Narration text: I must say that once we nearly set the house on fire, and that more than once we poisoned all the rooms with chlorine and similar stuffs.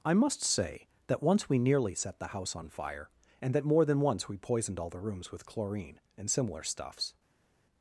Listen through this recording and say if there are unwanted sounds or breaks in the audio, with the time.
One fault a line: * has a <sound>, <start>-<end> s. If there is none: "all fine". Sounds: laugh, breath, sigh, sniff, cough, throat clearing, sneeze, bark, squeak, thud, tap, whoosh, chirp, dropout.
all fine